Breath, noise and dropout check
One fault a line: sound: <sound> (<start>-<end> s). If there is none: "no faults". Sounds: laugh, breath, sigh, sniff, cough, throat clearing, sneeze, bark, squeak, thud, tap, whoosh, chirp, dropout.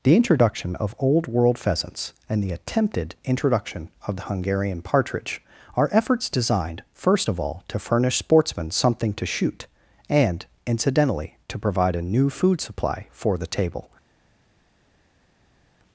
no faults